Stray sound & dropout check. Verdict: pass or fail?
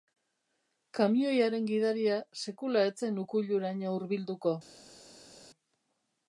pass